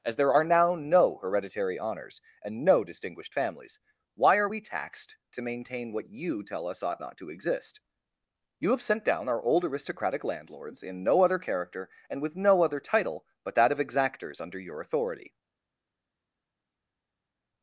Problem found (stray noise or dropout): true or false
false